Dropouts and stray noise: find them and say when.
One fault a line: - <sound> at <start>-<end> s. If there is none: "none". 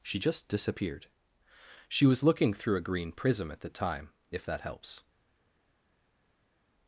none